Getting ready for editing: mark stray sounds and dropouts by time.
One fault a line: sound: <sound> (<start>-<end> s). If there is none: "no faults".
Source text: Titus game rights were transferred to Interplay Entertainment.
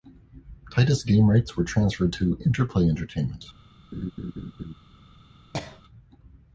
sound: laugh (3.9-4.7 s)
sound: cough (5.5-5.8 s)